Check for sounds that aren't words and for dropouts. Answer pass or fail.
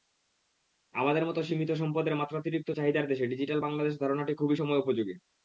pass